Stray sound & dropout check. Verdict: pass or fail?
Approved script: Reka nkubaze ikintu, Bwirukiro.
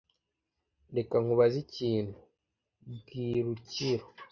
pass